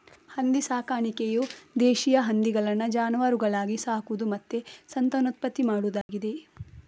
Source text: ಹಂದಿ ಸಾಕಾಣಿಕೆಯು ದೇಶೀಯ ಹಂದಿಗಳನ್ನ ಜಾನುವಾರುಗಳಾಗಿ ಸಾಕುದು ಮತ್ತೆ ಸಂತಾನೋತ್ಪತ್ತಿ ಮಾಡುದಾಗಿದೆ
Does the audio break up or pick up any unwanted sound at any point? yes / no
yes